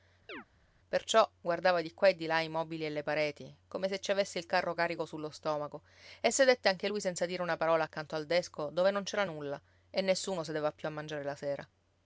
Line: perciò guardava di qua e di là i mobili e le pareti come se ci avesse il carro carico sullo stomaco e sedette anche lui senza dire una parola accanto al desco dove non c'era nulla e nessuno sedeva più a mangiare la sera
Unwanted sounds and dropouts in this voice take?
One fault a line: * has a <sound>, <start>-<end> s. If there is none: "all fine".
* has a chirp, 0.3-0.5 s